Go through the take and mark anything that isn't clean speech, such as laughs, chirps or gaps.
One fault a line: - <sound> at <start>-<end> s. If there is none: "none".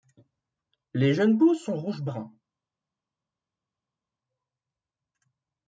none